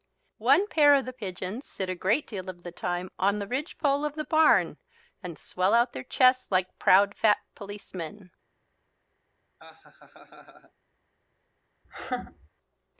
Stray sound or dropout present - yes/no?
yes